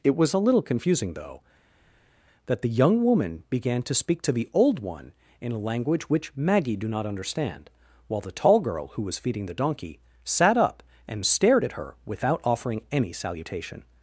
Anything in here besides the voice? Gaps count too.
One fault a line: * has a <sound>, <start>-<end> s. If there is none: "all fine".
all fine